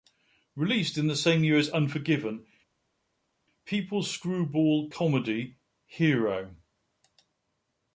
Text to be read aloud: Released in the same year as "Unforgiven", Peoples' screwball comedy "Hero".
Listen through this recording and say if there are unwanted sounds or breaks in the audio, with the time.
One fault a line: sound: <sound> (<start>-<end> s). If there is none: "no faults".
no faults